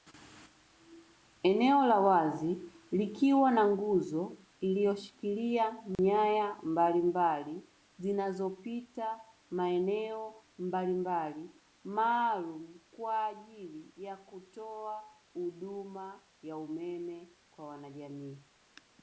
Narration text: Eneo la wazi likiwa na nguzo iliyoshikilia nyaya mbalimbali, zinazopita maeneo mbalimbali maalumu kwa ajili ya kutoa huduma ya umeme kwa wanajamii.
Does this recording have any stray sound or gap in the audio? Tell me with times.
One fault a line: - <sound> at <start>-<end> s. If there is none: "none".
- dropout at 6.0-6.0 s